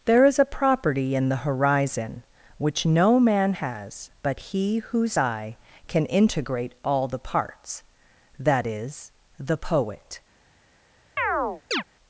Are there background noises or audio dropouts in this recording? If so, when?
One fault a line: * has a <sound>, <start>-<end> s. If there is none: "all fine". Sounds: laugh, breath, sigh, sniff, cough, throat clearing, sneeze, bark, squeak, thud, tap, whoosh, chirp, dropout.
* has a chirp, 11.2-11.8 s